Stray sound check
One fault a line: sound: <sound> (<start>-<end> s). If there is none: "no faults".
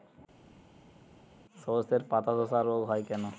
no faults